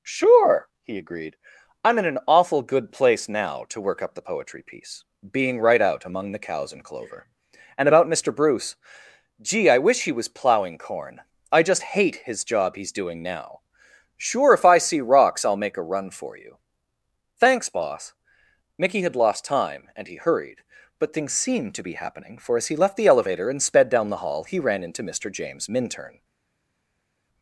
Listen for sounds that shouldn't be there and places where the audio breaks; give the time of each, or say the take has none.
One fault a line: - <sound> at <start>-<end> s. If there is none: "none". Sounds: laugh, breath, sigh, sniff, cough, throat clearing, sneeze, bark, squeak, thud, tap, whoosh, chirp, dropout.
none